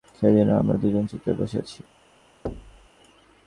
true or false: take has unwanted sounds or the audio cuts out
true